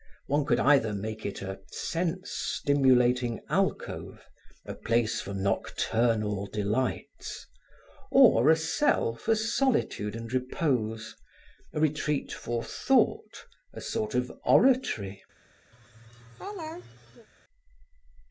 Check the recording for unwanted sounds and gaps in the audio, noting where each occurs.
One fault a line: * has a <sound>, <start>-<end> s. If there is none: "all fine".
* has a laugh, 15.7-17.3 s